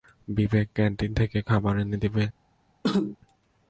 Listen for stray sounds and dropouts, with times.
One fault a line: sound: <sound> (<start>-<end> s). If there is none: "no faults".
sound: cough (2.8-3.2 s)